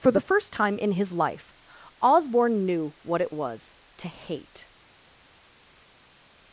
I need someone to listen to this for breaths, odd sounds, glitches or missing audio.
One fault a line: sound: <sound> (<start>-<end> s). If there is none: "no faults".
no faults